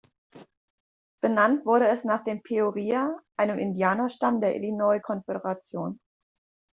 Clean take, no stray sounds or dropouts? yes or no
yes